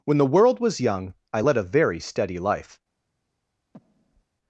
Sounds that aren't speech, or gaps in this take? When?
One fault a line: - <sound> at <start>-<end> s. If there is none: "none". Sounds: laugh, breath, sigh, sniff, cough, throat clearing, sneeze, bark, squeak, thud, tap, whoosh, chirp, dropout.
- breath at 3.7-4.2 s